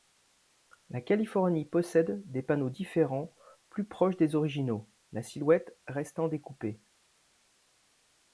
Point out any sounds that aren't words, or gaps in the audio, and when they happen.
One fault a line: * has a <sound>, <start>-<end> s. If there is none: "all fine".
all fine